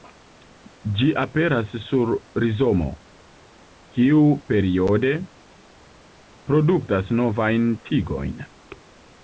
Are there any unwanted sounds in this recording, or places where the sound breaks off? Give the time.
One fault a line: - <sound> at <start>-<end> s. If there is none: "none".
none